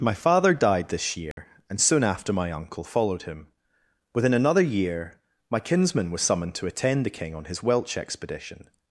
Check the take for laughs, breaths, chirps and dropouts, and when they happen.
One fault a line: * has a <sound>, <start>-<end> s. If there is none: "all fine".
* has a dropout, 1.3-1.4 s